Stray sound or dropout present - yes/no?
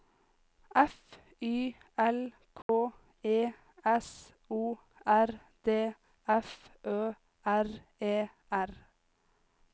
yes